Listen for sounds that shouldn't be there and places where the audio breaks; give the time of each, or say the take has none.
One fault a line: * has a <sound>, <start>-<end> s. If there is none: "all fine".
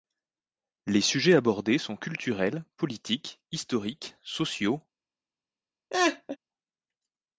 * has a laugh, 5.9-6.4 s